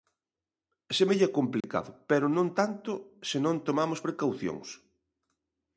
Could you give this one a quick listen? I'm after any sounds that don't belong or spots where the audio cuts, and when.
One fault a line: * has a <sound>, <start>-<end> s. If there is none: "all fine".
* has a dropout, 1.6-1.6 s